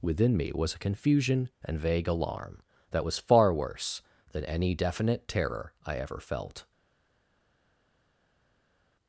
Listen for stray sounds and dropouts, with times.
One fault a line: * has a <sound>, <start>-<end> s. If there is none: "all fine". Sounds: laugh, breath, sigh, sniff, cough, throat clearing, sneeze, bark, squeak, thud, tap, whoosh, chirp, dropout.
all fine